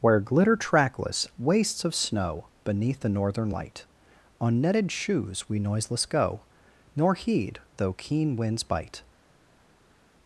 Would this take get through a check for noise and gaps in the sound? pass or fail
pass